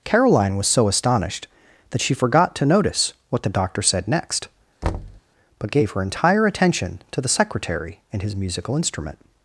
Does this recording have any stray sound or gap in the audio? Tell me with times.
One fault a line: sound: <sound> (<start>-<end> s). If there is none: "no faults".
sound: thud (4.8-5.2 s)